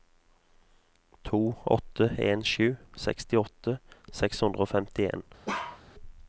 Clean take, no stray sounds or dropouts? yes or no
no